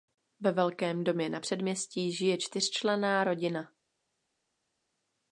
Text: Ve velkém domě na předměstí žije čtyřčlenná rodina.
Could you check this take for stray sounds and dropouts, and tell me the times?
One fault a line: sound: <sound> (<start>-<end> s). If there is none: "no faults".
no faults